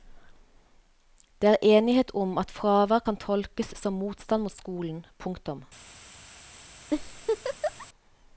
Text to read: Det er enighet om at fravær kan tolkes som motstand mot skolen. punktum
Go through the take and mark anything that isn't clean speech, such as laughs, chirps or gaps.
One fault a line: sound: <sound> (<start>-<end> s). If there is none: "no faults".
sound: laugh (6.9-7.9 s)